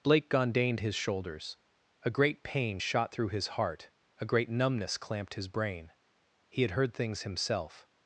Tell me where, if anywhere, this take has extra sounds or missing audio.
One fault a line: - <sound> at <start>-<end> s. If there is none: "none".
none